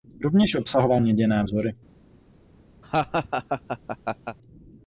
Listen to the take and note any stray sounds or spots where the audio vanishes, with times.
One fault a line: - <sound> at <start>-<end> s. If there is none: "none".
- laugh at 2.8-4.4 s